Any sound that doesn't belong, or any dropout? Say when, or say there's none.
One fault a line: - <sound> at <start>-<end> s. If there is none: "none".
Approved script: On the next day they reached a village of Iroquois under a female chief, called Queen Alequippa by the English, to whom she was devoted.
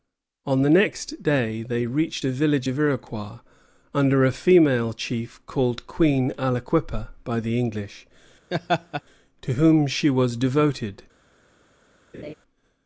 - laugh at 8.5-9.0 s
- laugh at 12.1-12.3 s